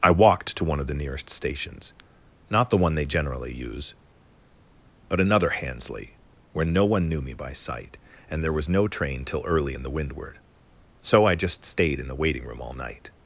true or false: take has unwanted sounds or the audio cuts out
false